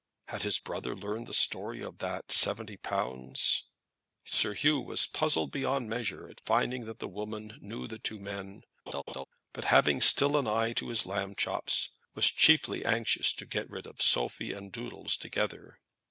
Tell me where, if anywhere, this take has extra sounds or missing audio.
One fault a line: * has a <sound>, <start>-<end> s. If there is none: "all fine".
* has a laugh, 8.9-9.2 s